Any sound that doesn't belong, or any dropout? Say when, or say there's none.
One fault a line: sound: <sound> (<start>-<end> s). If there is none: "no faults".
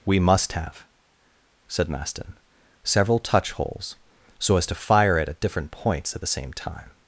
no faults